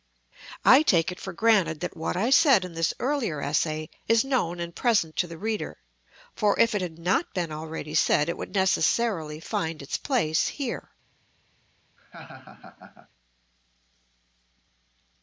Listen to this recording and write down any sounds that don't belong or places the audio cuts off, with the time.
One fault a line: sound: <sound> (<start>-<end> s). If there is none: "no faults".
sound: laugh (12.0-13.1 s)